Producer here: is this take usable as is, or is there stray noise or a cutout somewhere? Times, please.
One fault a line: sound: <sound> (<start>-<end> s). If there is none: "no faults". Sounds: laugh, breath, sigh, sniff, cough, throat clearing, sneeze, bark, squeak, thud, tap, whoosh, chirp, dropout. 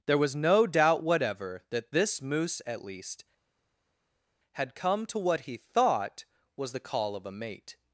no faults